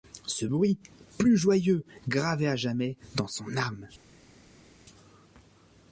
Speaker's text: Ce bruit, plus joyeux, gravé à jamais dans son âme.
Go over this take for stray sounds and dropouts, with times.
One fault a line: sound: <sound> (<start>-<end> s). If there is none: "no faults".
no faults